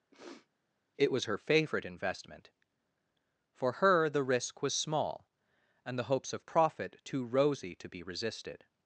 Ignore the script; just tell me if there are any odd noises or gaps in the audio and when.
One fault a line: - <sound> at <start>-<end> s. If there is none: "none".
- sniff at 0.1-0.5 s